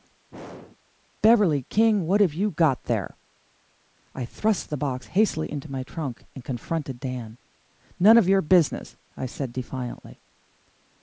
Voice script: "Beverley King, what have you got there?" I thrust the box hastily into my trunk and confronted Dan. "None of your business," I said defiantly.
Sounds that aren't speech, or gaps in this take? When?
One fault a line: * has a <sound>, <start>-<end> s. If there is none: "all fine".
* has a throat clearing, 0.3-0.8 s